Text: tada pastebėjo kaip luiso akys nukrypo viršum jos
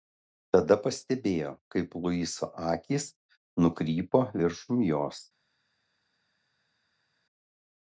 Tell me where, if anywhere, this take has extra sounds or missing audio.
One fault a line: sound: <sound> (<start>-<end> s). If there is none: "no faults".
no faults